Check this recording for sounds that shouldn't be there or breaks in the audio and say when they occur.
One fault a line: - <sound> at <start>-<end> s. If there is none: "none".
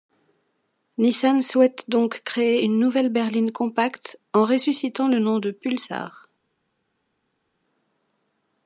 none